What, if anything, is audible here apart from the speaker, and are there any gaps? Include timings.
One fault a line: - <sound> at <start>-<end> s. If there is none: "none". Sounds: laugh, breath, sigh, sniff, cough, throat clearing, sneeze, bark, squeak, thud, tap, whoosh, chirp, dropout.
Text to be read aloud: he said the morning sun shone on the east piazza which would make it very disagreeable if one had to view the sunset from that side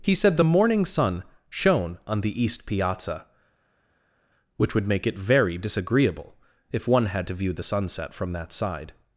none